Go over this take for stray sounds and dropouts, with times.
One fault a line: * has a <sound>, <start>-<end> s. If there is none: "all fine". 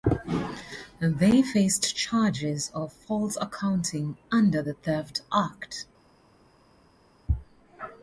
all fine